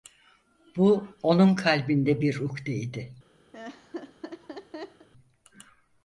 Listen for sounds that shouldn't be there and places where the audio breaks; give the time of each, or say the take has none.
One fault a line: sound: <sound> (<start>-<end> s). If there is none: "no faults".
sound: laugh (3.5-5.1 s)